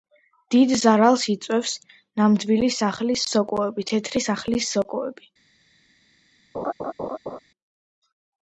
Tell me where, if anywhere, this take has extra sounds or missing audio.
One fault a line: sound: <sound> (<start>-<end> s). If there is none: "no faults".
sound: laugh (6.5-7.4 s)